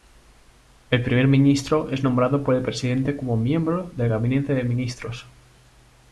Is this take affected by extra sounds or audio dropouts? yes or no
no